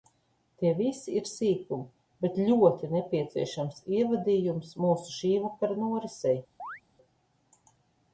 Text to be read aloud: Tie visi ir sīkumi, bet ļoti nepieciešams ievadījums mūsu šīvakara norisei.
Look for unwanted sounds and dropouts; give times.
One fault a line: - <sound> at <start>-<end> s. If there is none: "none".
- chirp at 6.6-6.8 s